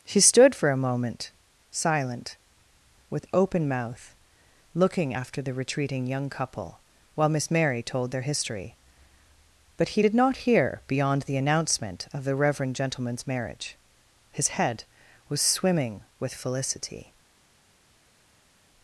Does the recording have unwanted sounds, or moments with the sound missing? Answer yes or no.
no